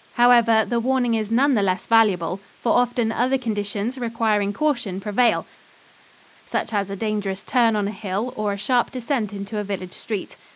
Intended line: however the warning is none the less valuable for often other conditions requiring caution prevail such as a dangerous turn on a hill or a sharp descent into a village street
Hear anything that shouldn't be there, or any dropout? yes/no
no